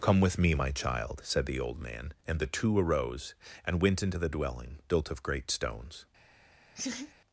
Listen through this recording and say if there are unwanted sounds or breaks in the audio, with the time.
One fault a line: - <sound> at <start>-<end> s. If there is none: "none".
- laugh at 6.7-7.1 s